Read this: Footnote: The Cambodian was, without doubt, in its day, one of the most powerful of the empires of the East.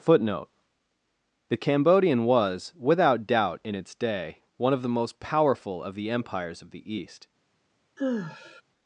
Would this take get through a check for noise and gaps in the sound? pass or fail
fail